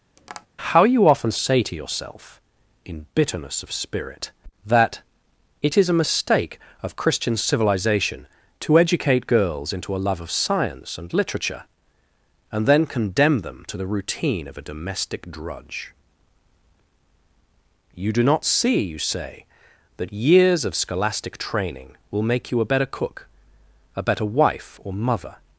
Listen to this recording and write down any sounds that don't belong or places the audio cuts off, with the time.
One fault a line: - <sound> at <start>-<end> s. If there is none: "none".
- tap at 0.2-0.5 s